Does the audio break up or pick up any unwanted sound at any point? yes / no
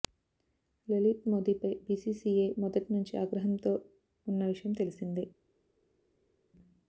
no